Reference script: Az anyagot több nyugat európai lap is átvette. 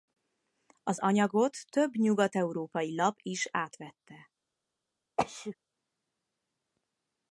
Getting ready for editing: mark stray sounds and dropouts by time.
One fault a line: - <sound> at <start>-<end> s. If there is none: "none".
- sneeze at 5.2-5.5 s